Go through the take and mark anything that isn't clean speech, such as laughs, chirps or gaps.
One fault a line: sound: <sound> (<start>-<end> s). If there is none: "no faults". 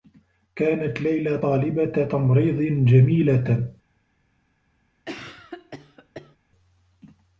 sound: cough (5.0-6.4 s)